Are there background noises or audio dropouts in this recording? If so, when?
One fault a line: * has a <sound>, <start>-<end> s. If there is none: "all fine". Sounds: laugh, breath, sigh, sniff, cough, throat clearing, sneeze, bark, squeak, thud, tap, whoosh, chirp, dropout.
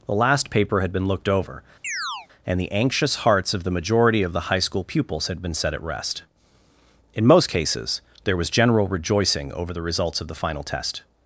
* has a chirp, 1.8-2.3 s